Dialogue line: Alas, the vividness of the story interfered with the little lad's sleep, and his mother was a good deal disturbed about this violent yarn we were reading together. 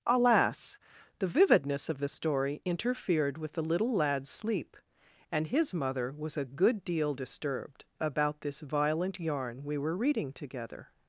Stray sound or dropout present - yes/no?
no